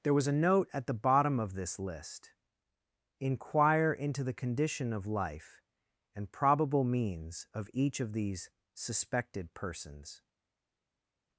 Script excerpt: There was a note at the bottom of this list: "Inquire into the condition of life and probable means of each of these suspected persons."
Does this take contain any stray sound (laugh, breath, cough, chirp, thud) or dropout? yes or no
no